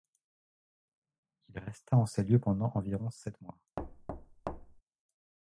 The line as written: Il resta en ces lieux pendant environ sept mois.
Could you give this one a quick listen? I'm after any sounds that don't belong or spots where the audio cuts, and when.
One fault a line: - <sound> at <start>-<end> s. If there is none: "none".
- thud at 3.8-4.8 s